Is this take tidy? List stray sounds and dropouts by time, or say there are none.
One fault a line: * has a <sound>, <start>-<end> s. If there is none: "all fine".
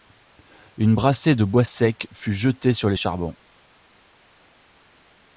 all fine